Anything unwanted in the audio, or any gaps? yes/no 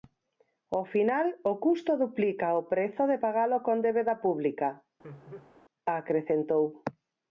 yes